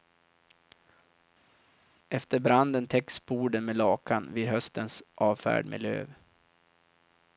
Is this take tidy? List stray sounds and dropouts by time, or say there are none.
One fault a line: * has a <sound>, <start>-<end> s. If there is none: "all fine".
all fine